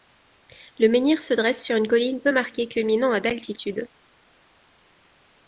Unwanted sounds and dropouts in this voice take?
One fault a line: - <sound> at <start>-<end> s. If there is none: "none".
none